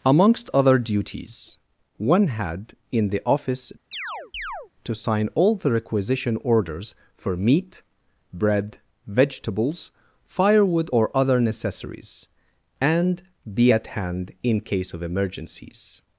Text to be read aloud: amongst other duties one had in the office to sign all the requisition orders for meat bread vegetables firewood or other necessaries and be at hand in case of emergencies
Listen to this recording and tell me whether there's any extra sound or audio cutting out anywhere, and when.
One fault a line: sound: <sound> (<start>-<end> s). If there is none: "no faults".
sound: chirp (3.9-4.7 s)